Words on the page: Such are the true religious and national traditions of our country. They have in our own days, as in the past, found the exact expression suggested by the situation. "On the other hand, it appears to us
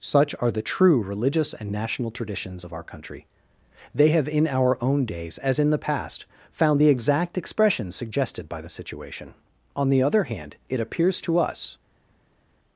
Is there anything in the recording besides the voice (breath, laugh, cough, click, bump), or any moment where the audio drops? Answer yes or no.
no